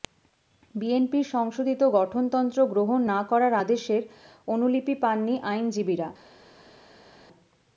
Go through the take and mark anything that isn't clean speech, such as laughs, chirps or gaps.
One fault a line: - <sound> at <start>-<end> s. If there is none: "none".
none